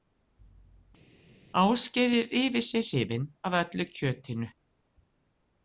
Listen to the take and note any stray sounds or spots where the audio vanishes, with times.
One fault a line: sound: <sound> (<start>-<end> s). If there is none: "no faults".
no faults